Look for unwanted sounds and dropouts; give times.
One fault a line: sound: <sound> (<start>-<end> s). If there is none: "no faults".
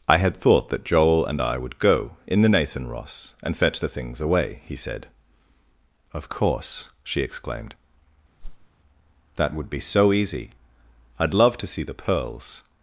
sound: whoosh (8.4-8.7 s)